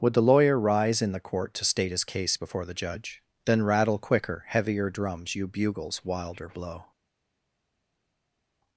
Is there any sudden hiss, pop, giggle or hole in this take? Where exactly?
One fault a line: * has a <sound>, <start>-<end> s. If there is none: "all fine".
all fine